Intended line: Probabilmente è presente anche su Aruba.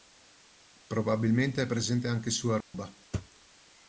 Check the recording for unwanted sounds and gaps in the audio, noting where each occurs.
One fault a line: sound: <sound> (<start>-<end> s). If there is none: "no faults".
sound: dropout (2.6-2.7 s)